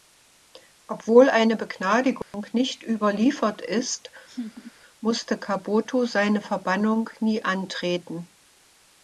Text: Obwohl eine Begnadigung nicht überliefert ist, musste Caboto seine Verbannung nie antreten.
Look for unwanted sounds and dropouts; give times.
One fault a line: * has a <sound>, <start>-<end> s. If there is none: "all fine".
* has a dropout, 2.2-2.3 s
* has a laugh, 4.3-4.7 s